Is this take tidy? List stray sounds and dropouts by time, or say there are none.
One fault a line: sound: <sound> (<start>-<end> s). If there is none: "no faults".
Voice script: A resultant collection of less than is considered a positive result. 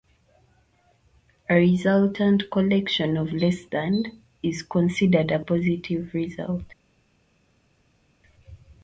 no faults